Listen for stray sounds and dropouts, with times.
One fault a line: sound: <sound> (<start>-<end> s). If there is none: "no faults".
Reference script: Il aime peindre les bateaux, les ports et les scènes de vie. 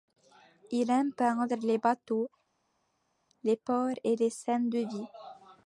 no faults